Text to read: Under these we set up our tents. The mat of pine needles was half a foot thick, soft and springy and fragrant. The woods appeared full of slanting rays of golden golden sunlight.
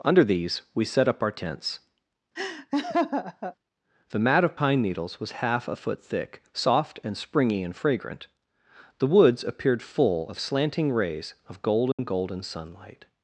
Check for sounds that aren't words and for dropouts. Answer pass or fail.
fail